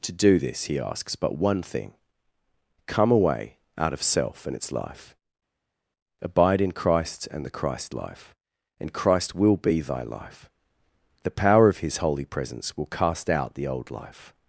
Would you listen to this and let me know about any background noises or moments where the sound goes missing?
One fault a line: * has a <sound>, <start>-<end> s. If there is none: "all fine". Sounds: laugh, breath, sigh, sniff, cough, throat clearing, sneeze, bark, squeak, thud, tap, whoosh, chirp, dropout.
all fine